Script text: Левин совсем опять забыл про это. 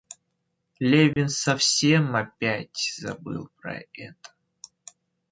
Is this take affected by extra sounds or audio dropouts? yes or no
yes